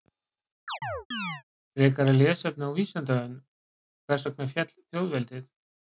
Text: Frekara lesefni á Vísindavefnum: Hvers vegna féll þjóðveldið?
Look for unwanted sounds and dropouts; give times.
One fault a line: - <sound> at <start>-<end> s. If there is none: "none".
- chirp at 0.7-1.4 s